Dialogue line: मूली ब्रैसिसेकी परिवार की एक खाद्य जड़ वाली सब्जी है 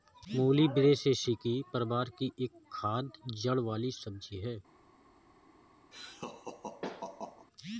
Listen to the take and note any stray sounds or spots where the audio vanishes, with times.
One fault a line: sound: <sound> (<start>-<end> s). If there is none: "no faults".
sound: laugh (5.9-7.5 s)